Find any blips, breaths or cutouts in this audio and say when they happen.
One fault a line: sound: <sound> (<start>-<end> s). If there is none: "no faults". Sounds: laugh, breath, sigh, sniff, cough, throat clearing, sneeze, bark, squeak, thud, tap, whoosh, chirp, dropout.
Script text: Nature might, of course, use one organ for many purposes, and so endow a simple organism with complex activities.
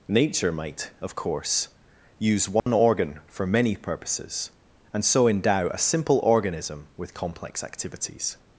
sound: dropout (2.6-2.7 s)